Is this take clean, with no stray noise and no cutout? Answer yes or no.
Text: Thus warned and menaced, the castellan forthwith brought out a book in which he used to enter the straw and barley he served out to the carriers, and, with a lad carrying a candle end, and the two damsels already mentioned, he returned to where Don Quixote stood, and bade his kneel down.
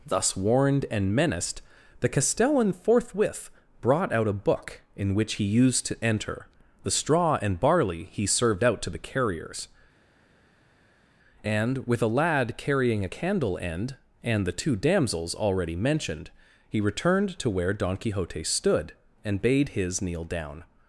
yes